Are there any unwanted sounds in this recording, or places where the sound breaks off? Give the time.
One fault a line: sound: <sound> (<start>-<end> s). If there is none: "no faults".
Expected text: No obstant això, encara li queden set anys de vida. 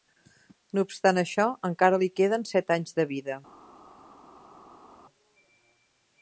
no faults